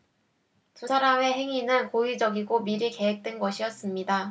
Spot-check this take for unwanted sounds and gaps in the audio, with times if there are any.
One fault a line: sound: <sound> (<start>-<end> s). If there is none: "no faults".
no faults